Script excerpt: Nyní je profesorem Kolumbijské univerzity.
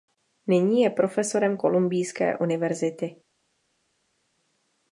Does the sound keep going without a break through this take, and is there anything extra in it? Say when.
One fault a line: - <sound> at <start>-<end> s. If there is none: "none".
none